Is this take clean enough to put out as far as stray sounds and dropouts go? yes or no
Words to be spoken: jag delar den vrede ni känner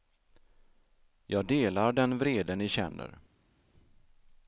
yes